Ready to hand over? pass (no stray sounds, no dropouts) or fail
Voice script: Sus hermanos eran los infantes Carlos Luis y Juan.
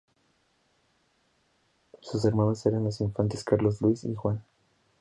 pass